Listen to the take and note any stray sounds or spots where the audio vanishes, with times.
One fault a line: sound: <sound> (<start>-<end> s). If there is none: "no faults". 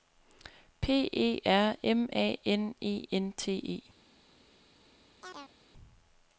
sound: chirp (5.2-5.5 s)